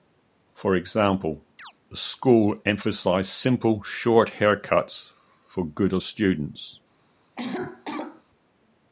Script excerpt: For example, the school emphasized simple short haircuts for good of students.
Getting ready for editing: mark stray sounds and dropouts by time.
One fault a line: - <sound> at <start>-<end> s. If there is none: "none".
- chirp at 1.6-1.7 s
- cough at 7.4-8.2 s